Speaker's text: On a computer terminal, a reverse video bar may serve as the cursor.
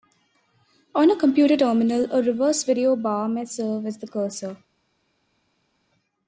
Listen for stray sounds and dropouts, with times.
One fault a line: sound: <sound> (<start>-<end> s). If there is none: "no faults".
no faults